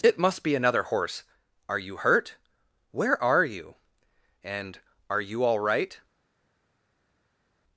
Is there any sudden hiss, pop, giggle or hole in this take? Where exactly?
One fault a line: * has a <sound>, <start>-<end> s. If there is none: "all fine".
all fine